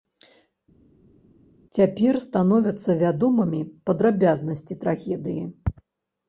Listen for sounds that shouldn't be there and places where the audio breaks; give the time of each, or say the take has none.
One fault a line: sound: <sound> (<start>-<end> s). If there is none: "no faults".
no faults